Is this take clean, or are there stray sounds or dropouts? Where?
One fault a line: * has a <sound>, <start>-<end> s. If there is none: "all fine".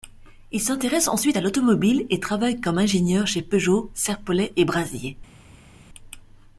all fine